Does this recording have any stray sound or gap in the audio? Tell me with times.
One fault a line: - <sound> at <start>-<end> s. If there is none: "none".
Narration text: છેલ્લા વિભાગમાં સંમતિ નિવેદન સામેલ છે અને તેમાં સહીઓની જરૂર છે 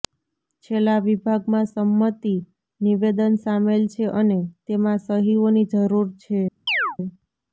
- chirp at 6.7-7.0 s